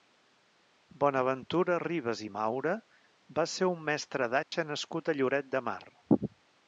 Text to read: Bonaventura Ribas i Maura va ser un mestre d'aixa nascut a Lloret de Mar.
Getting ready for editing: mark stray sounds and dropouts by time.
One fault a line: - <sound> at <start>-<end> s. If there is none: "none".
- dropout at 4.4-4.5 s